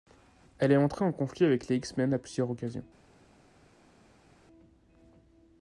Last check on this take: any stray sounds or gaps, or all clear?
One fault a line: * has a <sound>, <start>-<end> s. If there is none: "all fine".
all fine